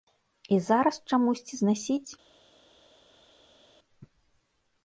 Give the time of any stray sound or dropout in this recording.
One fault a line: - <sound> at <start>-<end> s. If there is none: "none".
none